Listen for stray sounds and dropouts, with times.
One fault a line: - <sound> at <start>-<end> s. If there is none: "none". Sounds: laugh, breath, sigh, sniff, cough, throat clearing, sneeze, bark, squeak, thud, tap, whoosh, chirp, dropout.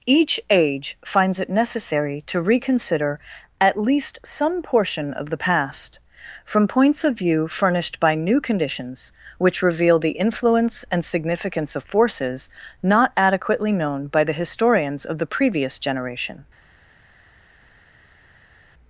none